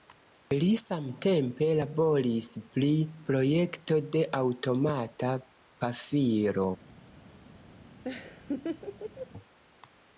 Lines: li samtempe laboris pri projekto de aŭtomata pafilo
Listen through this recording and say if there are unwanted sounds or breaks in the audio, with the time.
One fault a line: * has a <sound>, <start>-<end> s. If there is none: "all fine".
* has a laugh, 8.0-9.3 s